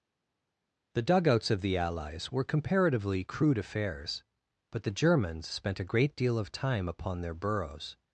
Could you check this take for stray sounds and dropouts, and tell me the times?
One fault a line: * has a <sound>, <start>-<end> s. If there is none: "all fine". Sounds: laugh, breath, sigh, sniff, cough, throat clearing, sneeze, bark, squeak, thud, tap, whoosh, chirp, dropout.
all fine